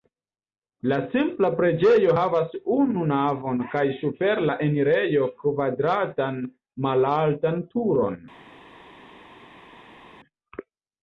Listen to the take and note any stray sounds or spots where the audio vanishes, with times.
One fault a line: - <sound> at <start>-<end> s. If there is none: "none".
none